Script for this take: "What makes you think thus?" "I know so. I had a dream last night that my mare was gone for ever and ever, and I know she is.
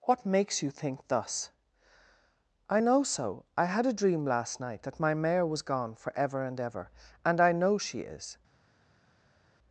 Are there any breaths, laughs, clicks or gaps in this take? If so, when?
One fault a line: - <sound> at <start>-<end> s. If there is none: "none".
none